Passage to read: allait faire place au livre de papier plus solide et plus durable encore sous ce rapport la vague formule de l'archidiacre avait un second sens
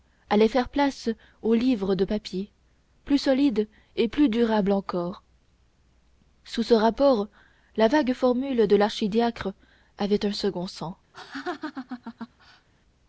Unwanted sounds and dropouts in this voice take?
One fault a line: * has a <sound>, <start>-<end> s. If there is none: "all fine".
* has a laugh, 11.1-12.7 s